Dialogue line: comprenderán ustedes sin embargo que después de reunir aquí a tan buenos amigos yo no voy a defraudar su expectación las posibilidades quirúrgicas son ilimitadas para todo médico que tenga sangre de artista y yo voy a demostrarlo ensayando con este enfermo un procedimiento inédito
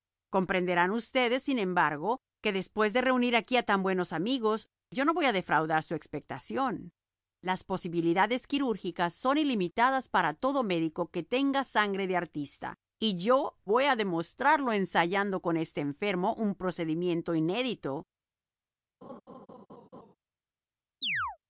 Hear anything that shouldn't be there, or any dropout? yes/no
yes